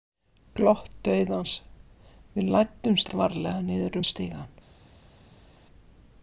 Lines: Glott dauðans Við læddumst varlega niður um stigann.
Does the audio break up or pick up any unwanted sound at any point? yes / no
no